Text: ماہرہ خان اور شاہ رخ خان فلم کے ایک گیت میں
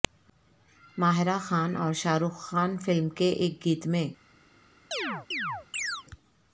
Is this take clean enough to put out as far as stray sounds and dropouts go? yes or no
no